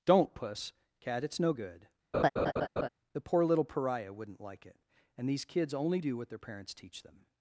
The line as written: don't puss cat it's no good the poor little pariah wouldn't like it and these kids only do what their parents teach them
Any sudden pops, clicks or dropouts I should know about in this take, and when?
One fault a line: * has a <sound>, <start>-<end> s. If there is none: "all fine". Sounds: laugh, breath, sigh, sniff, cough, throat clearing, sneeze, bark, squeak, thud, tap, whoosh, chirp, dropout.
* has a laugh, 2.1-2.9 s